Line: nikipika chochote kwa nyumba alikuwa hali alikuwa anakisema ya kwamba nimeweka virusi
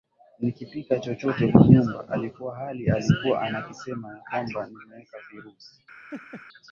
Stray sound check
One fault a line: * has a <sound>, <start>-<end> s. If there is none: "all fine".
* has a laugh, 6.1-6.5 s